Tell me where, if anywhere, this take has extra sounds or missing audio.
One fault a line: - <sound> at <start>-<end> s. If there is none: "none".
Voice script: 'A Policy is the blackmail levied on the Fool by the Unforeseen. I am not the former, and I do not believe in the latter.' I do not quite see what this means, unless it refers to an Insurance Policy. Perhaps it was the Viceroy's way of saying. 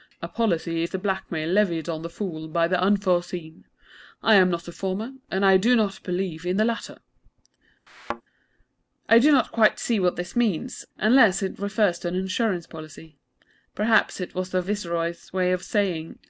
- thud at 7.9-8.2 s